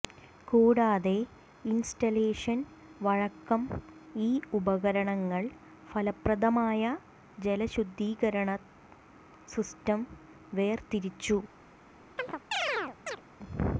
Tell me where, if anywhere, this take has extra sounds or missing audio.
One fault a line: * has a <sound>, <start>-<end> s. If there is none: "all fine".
* has a chirp, 12.2-13.2 s